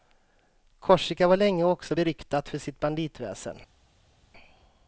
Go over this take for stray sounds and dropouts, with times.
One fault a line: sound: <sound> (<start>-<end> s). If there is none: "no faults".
no faults